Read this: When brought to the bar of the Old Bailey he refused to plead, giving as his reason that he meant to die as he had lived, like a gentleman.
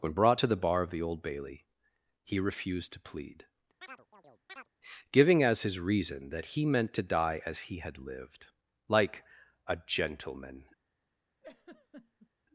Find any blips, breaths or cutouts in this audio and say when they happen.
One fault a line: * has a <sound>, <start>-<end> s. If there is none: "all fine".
* has a chirp, 3.8-4.7 s
* has a laugh, 11.4-12.3 s